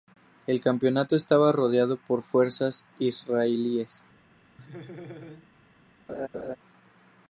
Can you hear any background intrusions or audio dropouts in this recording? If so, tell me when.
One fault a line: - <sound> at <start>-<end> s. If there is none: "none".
- laugh at 4.6-5.5 s
- laugh at 6.1-6.6 s